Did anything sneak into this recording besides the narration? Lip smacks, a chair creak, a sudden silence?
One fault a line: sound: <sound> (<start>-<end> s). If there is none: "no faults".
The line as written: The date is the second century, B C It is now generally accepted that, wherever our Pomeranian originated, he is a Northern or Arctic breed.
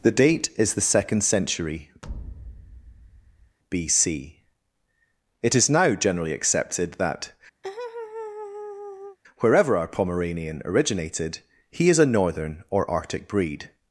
sound: thud (2.0-3.6 s)
sound: laugh (7.6-9.2 s)